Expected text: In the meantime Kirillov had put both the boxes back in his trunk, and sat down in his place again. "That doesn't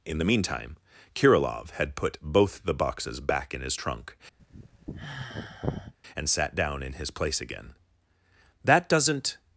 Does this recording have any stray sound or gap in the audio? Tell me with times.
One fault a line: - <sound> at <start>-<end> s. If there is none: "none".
- sigh at 4.4-5.9 s